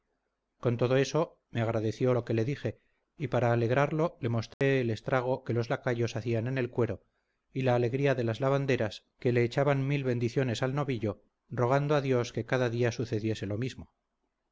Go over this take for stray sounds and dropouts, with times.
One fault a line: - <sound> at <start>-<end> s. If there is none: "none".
- dropout at 4.5-4.6 s